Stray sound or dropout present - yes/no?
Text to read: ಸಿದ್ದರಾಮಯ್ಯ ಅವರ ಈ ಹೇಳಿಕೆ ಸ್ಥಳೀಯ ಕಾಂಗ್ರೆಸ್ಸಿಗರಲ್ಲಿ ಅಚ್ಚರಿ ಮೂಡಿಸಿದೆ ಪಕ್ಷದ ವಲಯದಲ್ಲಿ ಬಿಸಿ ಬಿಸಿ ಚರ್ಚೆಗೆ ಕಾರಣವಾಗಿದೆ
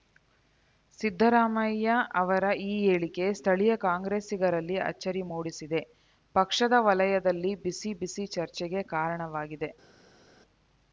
no